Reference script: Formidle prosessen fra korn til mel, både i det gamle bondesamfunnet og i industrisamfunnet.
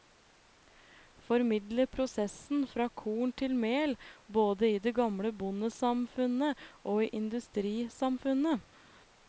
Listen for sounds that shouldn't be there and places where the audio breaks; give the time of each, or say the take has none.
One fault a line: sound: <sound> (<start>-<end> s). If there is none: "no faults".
no faults